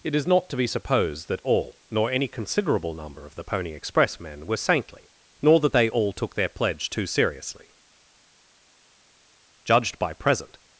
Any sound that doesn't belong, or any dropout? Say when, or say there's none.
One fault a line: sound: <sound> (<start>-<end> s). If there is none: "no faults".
no faults